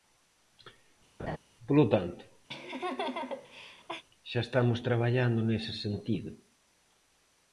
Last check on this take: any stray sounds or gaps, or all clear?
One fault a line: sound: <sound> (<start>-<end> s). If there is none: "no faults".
sound: laugh (1.2-1.4 s)
sound: laugh (2.5-4.0 s)